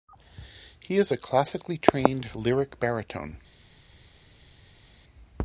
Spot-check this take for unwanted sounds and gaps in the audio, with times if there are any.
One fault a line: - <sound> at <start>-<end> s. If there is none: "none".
none